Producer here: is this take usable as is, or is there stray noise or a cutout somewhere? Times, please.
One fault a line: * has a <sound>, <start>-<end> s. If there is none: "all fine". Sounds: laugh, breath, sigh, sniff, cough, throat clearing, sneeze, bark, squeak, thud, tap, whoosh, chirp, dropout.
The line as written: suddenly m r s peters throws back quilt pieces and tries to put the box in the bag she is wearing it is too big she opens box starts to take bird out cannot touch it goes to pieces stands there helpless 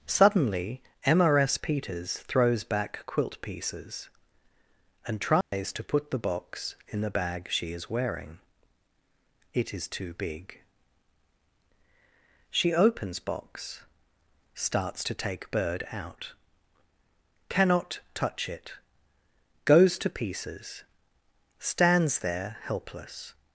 * has a dropout, 5.4-5.5 s